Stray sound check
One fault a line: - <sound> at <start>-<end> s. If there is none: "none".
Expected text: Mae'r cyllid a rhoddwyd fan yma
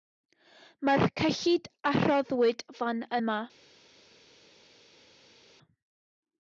none